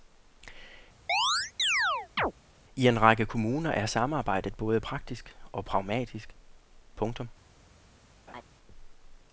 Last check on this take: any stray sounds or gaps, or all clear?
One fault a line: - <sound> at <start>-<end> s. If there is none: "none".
- chirp at 1.1-2.3 s
- laugh at 8.3-8.4 s